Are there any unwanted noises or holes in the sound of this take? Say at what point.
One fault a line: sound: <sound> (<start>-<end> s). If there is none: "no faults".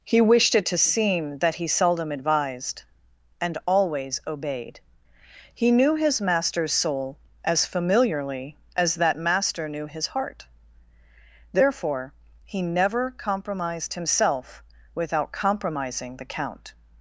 no faults